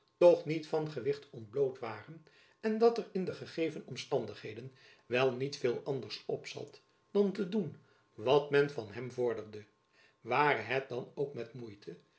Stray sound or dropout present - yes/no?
no